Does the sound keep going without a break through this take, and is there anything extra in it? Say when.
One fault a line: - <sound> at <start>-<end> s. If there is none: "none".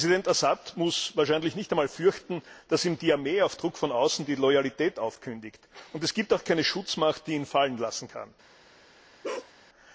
- bark at 9.2-9.5 s